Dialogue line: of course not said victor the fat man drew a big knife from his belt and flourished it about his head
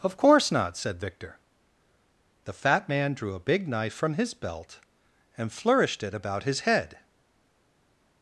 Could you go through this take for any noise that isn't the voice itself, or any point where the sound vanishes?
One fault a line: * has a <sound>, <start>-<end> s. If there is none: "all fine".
all fine